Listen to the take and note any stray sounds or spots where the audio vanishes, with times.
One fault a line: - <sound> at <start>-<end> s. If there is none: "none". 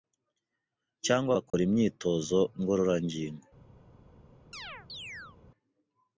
- dropout at 1.5-1.5 s
- chirp at 4.5-5.4 s